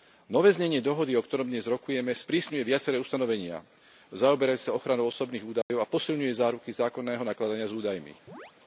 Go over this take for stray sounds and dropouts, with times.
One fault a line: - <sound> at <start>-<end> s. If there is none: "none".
- dropout at 5.6-5.7 s
- chirp at 8.3-8.5 s